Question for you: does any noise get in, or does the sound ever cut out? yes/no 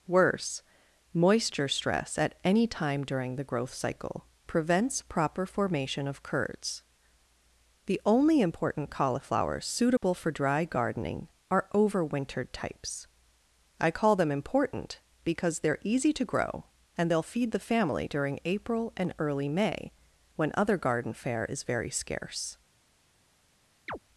yes